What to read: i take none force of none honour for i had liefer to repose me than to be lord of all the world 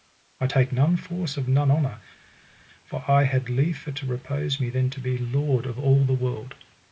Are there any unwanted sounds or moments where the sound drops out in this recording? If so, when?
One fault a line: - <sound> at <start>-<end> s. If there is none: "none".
none